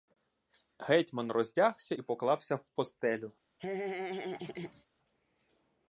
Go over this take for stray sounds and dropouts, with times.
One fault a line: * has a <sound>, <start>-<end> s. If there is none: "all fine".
* has a laugh, 3.6-4.9 s